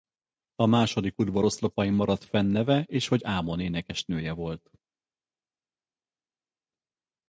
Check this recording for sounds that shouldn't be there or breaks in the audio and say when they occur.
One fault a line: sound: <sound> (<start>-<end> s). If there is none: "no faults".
no faults